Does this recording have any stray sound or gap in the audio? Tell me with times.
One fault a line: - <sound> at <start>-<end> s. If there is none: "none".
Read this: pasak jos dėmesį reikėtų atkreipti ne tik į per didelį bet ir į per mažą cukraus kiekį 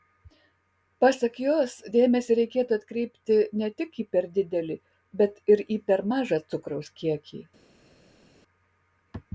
none